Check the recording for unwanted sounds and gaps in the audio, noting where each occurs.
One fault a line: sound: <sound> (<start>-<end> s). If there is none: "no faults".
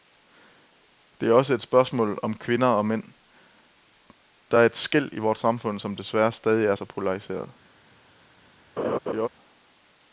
sound: laugh (8.8-9.3 s)